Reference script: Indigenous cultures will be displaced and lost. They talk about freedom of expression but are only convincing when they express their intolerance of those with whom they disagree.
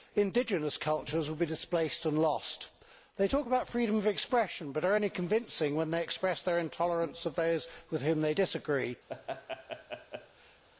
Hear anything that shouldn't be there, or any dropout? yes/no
yes